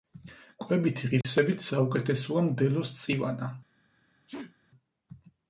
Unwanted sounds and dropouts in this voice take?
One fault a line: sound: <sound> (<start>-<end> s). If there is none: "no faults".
sound: dropout (1.2-1.2 s)
sound: sneeze (4.3-4.6 s)